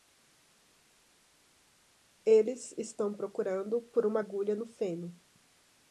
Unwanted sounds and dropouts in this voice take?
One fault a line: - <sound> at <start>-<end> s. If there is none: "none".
none